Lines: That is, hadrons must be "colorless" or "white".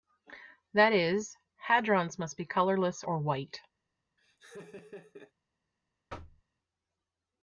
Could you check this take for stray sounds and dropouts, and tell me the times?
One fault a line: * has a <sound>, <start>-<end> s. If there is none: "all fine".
* has a laugh, 4.2-5.3 s
* has a thud, 6.1-6.4 s